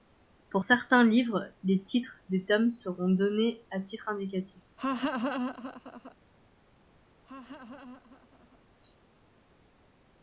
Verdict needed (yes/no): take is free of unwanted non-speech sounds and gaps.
no